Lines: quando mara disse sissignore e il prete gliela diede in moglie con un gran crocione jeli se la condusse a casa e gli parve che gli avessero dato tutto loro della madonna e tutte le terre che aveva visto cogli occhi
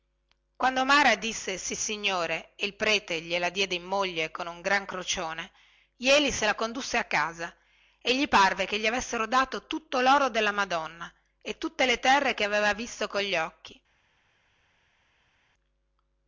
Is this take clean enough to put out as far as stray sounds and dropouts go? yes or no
yes